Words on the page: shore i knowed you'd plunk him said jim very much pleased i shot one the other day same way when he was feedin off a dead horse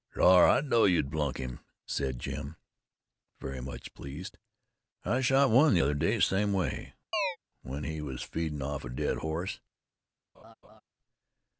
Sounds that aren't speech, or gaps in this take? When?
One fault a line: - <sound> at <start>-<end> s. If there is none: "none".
- chirp at 7.1-7.4 s
- laugh at 10.3-10.8 s